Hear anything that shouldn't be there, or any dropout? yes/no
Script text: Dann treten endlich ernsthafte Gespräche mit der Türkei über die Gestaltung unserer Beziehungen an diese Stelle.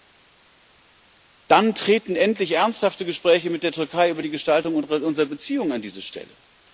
no